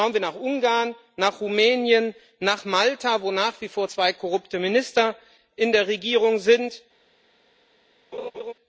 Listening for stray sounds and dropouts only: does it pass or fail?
fail